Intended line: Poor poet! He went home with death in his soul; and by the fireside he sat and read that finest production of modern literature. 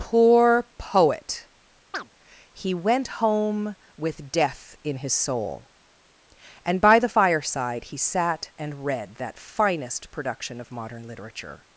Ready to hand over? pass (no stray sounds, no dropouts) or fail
fail